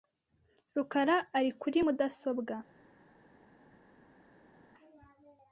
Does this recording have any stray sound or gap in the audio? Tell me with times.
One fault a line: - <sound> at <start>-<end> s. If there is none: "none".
none